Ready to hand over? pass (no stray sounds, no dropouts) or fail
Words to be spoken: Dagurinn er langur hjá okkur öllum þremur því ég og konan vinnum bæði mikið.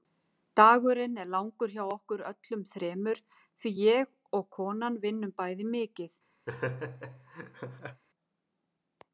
fail